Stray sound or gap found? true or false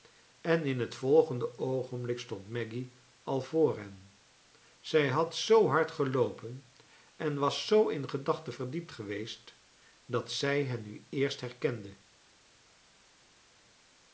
false